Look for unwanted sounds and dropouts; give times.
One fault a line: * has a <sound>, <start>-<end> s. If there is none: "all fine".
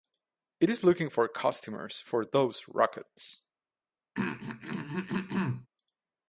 * has a throat clearing, 4.2-5.7 s